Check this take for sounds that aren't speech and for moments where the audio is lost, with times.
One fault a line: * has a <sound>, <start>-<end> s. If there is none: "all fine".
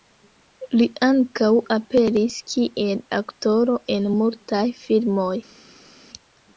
all fine